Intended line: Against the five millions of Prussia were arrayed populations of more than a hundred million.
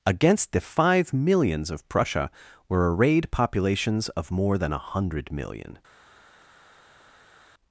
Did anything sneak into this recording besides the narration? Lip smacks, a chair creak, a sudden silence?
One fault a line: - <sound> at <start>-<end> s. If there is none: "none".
none